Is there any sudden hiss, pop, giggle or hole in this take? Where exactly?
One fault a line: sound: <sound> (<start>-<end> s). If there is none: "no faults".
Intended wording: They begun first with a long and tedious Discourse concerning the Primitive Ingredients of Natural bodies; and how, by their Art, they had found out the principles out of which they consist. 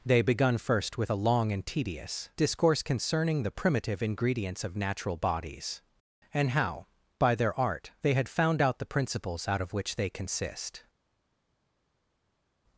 no faults